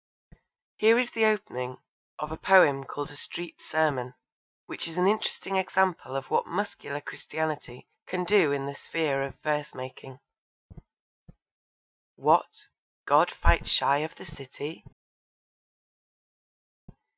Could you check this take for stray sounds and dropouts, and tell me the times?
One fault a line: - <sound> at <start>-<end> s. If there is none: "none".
none